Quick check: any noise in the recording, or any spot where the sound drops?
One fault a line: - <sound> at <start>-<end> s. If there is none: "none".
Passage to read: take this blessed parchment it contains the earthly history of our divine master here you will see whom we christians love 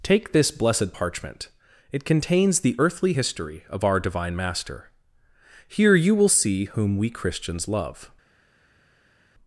none